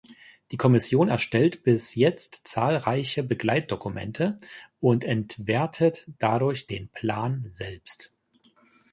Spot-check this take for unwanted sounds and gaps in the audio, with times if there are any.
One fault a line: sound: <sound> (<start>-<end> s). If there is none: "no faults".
no faults